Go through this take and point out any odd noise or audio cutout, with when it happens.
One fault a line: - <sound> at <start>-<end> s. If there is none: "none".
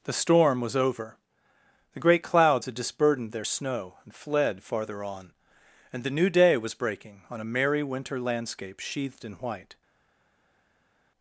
none